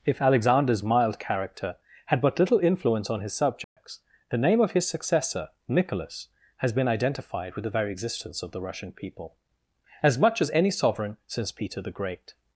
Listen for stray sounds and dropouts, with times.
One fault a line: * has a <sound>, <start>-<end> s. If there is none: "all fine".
* has a dropout, 3.6-3.8 s